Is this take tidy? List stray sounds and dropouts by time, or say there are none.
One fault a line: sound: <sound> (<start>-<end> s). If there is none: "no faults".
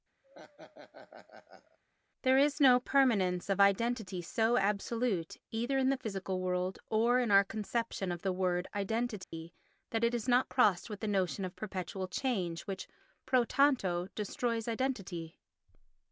sound: laugh (0.2-1.8 s)
sound: dropout (9.2-9.3 s)